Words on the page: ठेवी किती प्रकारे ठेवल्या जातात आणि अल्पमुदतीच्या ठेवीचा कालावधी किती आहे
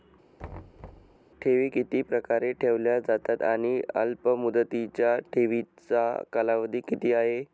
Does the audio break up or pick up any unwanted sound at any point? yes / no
yes